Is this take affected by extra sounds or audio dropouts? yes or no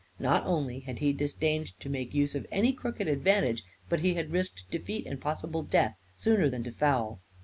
no